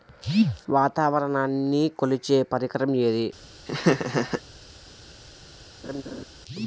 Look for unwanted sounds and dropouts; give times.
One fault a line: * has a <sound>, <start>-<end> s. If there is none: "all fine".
* has a laugh, 3.7-4.4 s
* has a laugh, 5.8-6.3 s